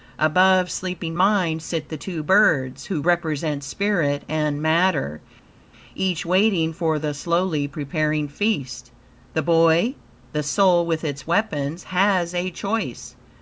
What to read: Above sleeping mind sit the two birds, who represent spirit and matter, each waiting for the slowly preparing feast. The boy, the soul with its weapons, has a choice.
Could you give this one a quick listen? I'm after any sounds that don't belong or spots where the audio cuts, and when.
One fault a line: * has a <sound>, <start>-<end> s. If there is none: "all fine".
all fine